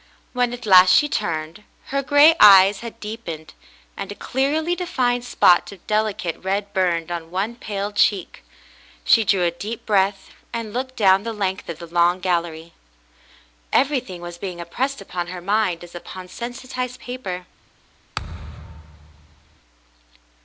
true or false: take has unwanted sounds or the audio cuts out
true